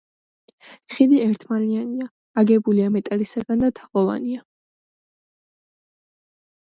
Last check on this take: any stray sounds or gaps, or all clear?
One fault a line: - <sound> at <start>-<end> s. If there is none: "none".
none